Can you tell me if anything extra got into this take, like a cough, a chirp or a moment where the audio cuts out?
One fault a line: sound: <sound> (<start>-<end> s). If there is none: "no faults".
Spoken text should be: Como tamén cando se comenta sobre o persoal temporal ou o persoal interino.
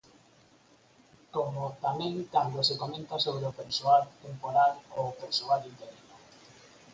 no faults